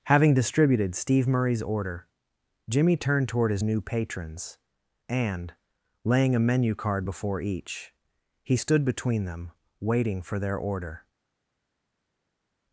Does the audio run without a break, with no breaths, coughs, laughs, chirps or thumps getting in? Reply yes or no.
yes